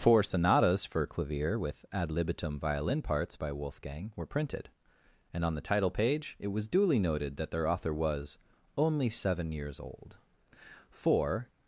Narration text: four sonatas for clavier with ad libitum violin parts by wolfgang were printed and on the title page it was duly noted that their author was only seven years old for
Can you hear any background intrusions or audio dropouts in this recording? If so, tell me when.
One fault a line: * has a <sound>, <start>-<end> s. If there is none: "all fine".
all fine